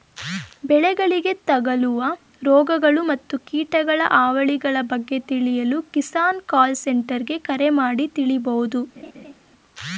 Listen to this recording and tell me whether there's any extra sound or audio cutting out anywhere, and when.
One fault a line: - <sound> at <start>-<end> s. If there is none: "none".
- laugh at 9.0-9.3 s